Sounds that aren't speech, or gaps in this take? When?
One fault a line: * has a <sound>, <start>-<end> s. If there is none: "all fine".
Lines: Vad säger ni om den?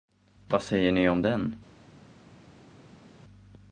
all fine